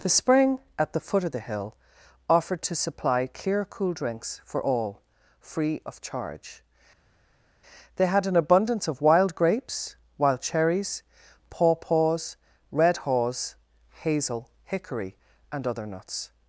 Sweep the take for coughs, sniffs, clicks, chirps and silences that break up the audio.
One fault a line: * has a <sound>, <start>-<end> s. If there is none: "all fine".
all fine